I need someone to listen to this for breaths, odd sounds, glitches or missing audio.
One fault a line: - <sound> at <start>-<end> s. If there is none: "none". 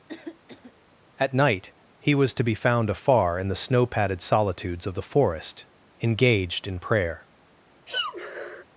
- cough at 0.1-0.7 s
- sneeze at 7.9-8.6 s